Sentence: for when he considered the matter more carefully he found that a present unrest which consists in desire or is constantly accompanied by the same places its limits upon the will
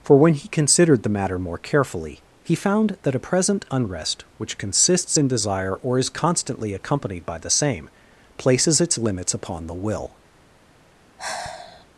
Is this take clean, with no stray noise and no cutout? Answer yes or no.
no